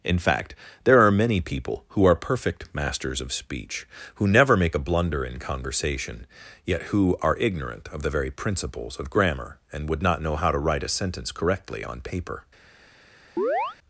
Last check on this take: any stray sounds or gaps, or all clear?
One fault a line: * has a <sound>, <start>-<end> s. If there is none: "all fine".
* has a chirp, 13.4-13.8 s